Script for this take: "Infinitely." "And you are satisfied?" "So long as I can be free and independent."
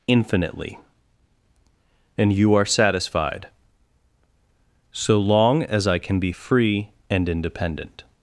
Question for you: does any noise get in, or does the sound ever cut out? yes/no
no